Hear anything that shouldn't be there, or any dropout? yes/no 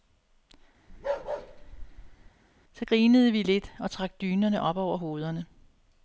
yes